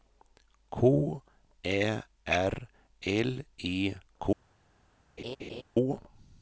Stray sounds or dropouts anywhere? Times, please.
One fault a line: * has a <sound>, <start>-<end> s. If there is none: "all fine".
* has a laugh, 5.2-5.6 s